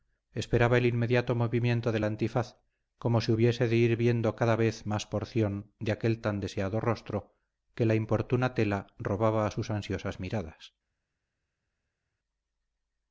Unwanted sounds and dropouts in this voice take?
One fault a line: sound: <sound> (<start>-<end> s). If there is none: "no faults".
no faults